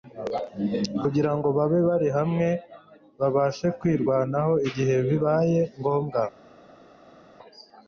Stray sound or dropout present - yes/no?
no